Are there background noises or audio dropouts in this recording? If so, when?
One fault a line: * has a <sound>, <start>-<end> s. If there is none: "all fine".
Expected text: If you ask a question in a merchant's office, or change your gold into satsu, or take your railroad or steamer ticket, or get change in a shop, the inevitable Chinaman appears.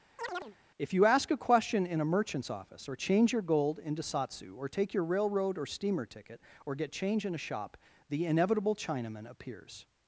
* has a chirp, 0.2-0.6 s